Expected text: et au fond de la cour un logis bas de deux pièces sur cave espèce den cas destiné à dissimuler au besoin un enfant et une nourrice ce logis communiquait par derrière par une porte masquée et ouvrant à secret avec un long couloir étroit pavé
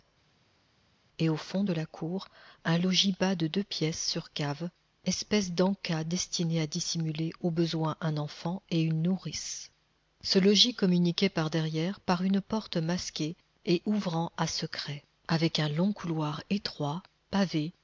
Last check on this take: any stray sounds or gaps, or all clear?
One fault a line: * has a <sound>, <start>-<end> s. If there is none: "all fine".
all fine